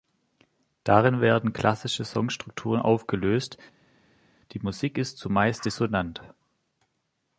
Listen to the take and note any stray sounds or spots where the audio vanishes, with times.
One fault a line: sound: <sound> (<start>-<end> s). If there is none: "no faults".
no faults